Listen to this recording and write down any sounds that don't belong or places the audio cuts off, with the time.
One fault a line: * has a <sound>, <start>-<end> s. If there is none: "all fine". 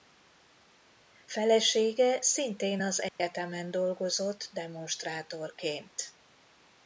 * has a dropout, 3.1-3.2 s